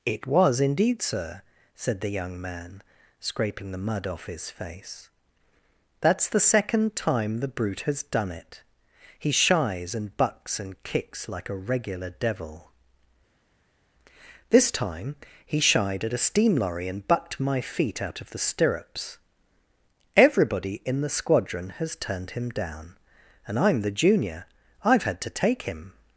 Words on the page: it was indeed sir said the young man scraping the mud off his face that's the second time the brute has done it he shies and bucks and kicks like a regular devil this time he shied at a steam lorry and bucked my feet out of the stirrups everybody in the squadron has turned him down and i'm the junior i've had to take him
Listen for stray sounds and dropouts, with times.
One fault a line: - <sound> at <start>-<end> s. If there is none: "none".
none